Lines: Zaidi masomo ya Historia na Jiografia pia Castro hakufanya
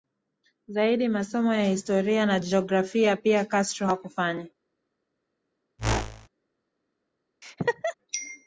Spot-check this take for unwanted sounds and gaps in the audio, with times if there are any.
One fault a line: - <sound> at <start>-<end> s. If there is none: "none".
- whoosh at 5.8-6.3 s
- laugh at 7.4-7.9 s